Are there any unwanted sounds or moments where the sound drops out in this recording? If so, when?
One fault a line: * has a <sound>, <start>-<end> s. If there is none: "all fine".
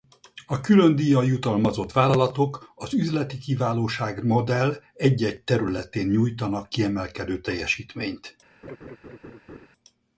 * has a laugh, 8.6-9.7 s